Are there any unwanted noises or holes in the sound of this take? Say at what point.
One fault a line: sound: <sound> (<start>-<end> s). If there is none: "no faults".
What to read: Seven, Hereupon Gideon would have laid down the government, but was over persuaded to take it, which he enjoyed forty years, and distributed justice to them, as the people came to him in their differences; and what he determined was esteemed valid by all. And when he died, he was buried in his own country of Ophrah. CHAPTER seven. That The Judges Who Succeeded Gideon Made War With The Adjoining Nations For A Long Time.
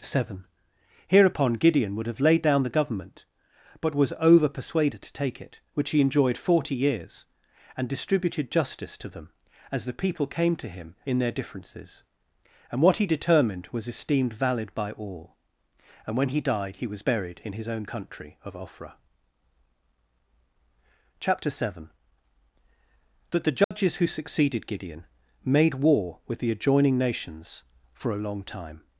sound: dropout (23.6-23.7 s)